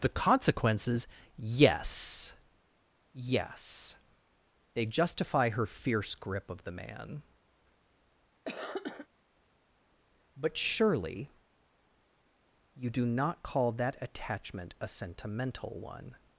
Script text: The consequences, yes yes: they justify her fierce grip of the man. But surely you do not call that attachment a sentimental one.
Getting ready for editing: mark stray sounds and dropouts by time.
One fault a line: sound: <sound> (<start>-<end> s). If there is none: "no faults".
sound: cough (8.4-9.1 s)